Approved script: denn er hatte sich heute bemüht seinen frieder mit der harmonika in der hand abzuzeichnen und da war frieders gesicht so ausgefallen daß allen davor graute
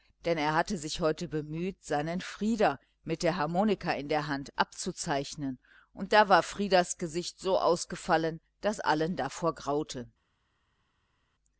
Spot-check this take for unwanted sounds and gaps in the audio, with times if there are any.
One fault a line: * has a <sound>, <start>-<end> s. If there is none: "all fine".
all fine